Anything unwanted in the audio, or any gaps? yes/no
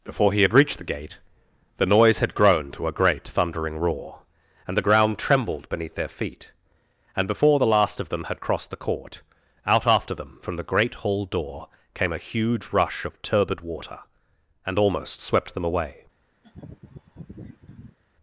yes